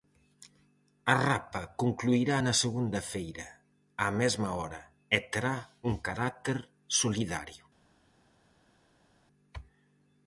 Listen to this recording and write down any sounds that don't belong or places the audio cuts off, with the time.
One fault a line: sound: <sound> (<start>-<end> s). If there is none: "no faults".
no faults